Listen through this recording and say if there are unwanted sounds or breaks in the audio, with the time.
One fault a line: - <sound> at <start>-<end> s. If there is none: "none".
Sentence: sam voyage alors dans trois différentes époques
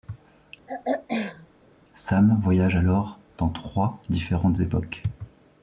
- throat clearing at 0.7-1.5 s